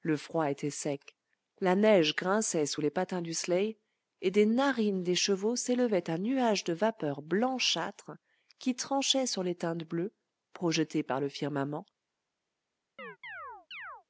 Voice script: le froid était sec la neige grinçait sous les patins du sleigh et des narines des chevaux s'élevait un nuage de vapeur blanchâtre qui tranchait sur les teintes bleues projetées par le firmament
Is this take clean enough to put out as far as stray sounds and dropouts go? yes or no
no